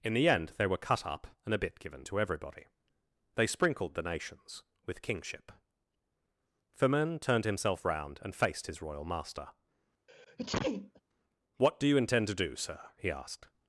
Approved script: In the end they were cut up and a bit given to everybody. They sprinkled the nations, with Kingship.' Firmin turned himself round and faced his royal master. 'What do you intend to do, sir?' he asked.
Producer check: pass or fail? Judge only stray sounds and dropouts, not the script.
fail